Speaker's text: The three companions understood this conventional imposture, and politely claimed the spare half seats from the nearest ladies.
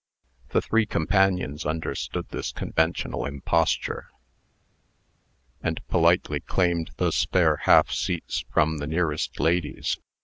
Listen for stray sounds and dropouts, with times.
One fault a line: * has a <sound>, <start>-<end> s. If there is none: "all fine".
all fine